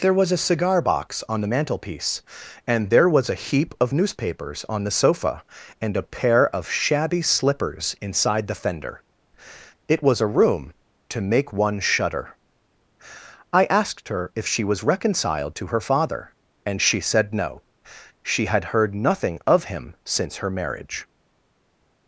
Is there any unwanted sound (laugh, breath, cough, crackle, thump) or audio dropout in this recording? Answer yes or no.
no